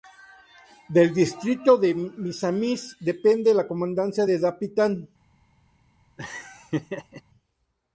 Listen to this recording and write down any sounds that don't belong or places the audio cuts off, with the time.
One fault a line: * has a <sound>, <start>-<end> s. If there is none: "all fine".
* has a laugh, 6.2-7.2 s